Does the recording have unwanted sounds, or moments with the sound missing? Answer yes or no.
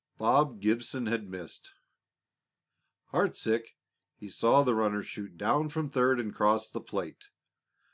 no